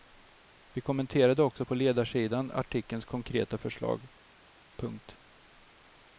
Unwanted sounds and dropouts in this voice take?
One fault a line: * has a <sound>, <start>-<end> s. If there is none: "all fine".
all fine